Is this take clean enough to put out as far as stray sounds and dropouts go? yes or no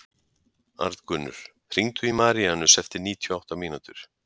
yes